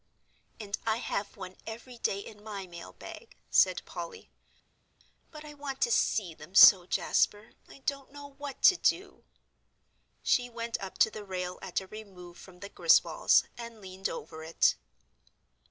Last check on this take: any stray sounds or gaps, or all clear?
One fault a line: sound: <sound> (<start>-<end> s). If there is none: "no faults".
no faults